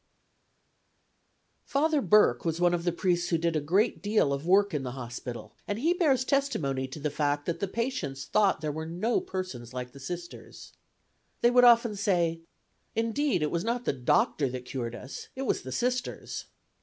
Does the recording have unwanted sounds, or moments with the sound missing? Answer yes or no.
no